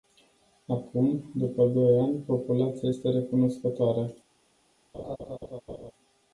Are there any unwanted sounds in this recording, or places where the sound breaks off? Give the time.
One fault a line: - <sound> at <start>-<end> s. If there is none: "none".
- laugh at 4.9-5.9 s